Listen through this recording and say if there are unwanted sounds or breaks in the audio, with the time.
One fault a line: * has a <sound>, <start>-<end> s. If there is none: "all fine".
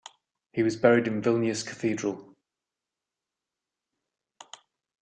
all fine